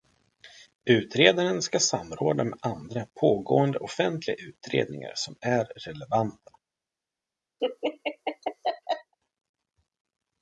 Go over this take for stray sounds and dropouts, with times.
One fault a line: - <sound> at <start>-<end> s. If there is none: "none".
- laugh at 7.6-9.1 s